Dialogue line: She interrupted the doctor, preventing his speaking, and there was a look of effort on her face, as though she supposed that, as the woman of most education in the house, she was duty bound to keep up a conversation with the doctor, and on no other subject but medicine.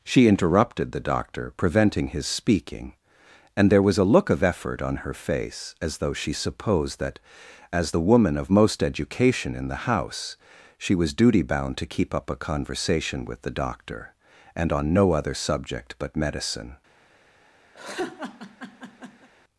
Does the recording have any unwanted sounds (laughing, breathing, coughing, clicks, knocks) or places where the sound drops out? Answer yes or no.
yes